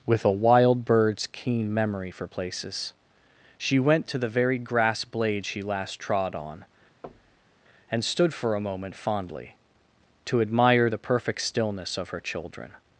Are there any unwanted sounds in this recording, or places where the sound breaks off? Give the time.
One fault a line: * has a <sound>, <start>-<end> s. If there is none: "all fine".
* has a thud, 7.0-7.6 s